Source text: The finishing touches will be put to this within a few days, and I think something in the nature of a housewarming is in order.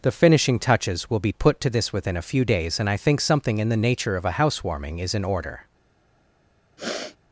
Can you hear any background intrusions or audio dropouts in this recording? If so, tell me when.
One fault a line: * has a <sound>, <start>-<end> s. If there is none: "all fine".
* has a sniff, 6.8-7.2 s